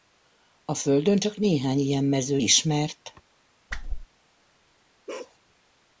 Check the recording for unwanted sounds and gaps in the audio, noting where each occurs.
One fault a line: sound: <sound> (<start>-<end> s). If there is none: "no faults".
sound: whoosh (3.7-4.1 s)
sound: bark (5.1-5.4 s)